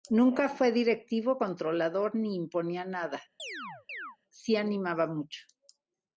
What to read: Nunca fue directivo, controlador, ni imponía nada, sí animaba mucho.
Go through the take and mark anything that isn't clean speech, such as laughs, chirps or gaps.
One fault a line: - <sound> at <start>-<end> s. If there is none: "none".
- chirp at 3.4-4.2 s